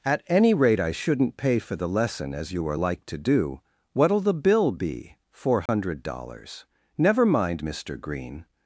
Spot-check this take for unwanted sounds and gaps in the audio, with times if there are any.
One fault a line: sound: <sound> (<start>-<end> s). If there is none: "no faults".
sound: dropout (5.7-5.7 s)